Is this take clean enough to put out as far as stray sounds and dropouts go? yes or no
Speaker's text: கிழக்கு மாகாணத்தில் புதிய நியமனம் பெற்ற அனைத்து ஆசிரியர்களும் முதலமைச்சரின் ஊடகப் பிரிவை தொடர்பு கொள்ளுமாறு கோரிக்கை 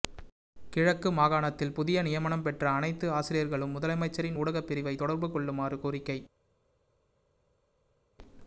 yes